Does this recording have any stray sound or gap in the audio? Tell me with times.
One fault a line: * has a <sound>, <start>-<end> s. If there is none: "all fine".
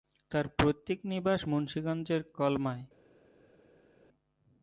all fine